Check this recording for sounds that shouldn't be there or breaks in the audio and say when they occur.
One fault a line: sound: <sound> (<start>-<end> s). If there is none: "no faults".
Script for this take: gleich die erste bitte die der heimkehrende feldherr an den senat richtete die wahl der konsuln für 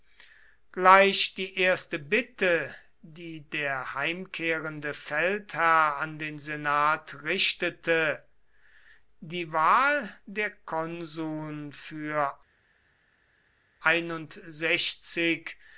no faults